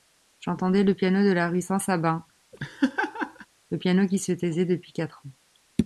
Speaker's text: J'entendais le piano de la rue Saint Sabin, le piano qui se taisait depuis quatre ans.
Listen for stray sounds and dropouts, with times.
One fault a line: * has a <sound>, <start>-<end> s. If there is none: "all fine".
* has a laugh, 2.5-3.5 s